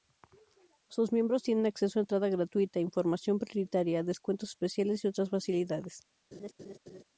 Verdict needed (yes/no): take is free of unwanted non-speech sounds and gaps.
no